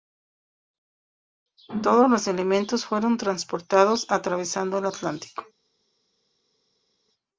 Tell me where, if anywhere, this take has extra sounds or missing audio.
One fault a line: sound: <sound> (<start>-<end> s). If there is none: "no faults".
no faults